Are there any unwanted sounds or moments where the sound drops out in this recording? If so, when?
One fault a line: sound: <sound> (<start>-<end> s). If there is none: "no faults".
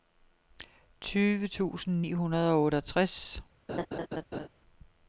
sound: laugh (3.7-4.5 s)